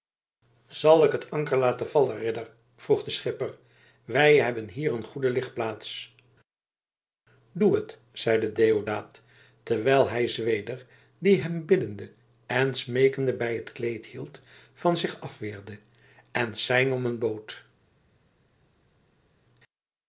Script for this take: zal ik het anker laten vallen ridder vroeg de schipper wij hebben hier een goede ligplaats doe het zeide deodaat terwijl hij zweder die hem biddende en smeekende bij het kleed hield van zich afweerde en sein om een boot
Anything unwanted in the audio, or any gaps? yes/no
no